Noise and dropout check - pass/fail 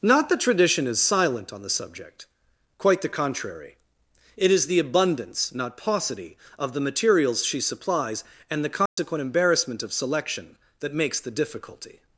fail